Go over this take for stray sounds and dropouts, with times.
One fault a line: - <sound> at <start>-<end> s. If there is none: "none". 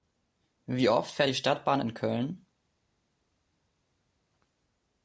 none